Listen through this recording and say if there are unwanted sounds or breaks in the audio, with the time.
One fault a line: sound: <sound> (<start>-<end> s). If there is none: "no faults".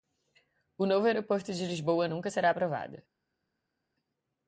no faults